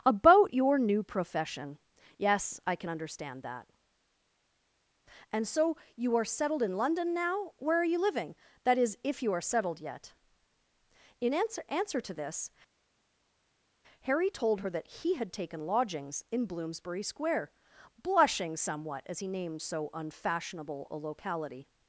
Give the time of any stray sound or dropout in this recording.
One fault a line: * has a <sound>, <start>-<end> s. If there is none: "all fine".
all fine